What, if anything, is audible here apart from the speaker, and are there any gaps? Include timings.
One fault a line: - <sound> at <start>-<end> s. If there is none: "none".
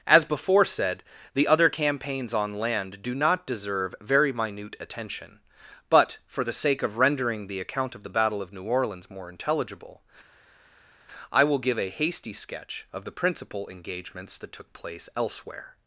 none